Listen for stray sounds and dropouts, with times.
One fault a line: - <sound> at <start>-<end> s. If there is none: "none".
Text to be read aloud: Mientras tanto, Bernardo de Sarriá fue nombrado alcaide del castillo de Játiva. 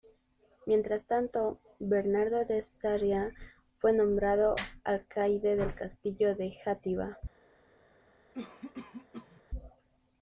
- cough at 8.3-9.4 s